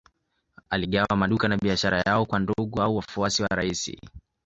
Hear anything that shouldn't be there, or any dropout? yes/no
no